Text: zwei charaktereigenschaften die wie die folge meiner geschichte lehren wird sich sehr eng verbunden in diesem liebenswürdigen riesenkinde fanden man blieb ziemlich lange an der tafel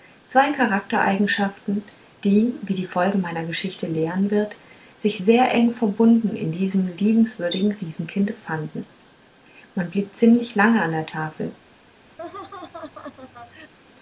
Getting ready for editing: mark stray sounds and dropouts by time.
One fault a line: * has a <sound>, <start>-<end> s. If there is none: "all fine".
* has a laugh, 12.2-13.7 s